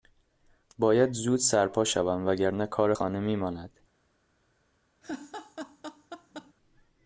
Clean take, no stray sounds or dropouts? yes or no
no